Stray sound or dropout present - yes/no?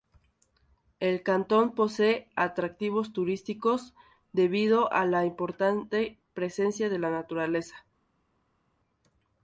no